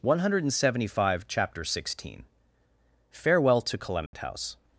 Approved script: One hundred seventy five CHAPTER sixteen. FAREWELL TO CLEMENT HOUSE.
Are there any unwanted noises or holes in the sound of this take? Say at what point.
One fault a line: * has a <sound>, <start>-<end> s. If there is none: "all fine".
* has a dropout, 4.1-4.1 s